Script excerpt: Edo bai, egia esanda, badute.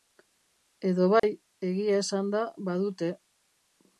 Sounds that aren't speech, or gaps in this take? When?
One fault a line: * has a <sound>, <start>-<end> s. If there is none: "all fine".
* has a dropout, 1.2-1.2 s